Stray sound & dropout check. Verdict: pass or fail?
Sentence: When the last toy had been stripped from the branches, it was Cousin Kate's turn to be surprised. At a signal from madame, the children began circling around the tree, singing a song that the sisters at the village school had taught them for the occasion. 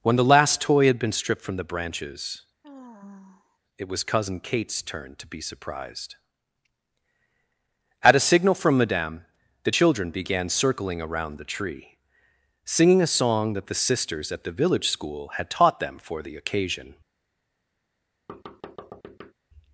fail